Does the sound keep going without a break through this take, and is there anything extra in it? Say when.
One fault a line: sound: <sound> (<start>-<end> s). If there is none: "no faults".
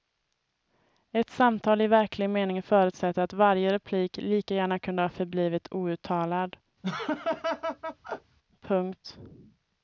sound: laugh (6.8-8.4 s)